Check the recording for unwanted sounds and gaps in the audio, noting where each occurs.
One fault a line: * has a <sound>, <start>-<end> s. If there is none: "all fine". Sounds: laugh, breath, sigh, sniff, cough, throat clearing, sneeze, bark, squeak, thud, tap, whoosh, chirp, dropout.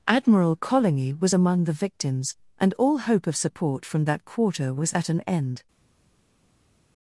all fine